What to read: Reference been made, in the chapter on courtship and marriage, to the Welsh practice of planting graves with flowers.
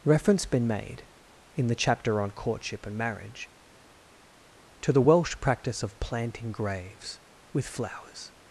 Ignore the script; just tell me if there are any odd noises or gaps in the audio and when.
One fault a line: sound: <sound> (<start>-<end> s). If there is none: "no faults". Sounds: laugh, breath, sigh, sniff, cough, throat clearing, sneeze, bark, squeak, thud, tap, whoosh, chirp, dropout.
no faults